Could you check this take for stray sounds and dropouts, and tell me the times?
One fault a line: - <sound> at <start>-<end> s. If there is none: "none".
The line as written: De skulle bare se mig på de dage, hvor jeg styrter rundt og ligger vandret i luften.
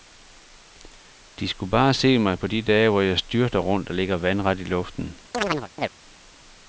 - chirp at 5.3-5.9 s